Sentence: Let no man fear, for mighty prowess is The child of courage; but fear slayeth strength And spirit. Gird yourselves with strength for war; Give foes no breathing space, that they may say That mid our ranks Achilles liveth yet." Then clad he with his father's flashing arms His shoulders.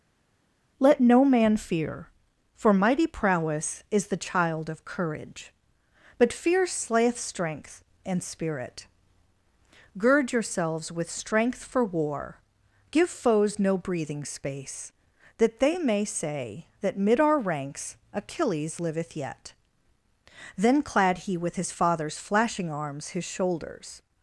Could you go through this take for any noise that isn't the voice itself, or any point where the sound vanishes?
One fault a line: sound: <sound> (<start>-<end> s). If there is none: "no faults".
no faults